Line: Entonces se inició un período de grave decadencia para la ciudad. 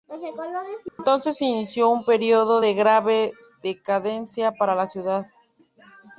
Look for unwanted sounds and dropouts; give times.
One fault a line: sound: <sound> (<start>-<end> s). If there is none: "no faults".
sound: dropout (0.9-1.0 s)